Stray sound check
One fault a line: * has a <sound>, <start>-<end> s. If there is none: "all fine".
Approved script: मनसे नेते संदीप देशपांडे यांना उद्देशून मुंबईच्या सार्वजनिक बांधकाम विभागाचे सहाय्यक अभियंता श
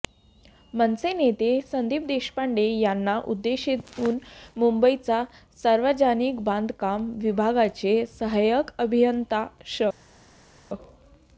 all fine